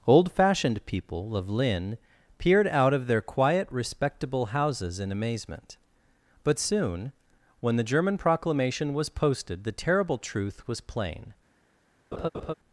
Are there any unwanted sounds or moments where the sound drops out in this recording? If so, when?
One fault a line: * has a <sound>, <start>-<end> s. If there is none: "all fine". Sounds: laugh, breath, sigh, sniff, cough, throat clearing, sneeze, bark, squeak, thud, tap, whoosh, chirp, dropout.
* has a laugh, 12.1-12.5 s